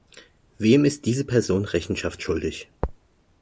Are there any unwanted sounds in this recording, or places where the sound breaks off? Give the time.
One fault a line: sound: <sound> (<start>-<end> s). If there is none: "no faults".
no faults